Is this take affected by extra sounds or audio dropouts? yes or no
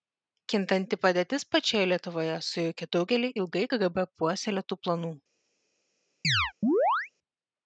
yes